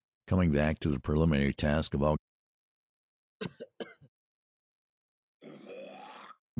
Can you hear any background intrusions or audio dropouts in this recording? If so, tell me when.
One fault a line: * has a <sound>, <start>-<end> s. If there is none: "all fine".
* has a cough, 3.4-4.1 s
* has a throat clearing, 5.4-6.4 s